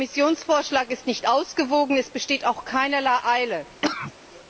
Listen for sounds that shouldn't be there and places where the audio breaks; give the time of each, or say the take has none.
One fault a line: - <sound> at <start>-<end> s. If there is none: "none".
- cough at 3.8-4.1 s